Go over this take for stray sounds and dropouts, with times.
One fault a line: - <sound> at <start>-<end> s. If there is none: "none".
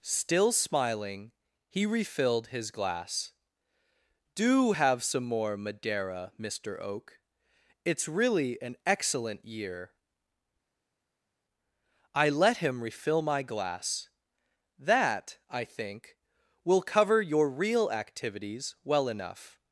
none